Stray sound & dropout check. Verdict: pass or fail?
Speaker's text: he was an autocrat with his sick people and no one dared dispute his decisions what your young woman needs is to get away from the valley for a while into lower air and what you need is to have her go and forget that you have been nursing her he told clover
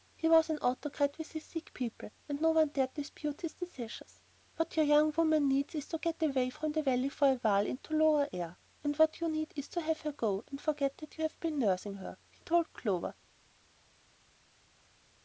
pass